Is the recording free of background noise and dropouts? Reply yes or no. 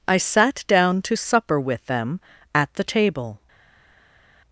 yes